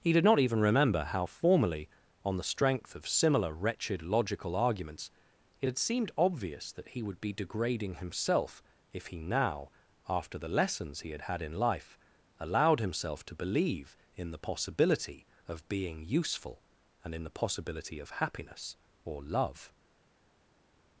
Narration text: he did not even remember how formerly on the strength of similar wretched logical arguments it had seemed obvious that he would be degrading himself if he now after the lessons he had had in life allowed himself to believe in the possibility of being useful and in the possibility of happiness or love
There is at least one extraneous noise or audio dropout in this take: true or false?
false